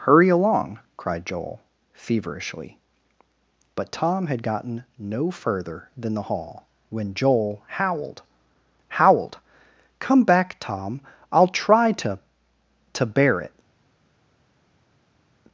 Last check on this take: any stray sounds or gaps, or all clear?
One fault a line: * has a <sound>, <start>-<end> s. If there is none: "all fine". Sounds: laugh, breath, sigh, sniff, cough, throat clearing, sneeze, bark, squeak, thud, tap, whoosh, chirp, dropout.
all fine